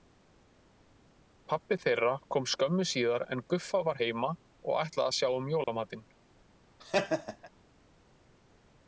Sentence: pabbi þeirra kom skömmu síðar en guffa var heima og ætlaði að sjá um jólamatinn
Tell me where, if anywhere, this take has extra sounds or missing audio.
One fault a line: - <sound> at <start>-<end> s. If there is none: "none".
- dropout at 5.6-5.7 s
- laugh at 6.8-7.5 s